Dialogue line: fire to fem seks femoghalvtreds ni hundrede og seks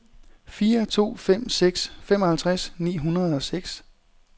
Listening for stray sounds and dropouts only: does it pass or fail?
pass